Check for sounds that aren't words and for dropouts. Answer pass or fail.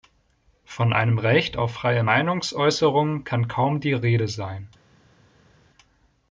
pass